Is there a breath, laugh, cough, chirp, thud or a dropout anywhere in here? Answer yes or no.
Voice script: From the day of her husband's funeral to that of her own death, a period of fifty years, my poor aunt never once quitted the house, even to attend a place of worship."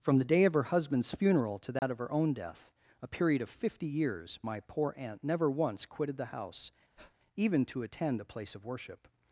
yes